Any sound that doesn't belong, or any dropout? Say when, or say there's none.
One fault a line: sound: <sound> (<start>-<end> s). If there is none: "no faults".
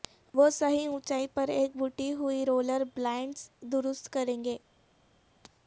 no faults